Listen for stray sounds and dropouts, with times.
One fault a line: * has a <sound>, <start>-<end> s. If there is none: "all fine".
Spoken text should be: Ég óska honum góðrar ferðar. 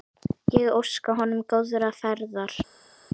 all fine